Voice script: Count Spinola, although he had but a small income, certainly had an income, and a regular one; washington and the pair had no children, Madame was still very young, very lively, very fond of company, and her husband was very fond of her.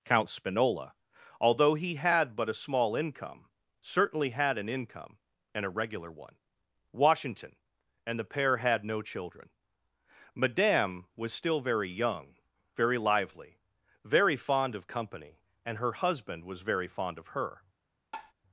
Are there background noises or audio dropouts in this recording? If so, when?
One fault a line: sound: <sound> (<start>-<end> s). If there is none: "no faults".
sound: tap (18.1-18.3 s)